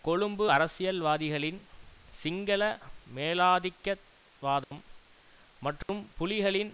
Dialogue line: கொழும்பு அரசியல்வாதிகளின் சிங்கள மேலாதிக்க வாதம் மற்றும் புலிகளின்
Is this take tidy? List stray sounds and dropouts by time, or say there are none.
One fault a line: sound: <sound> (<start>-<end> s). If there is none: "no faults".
sound: dropout (4.6-4.7 s)
sound: dropout (5.8-5.9 s)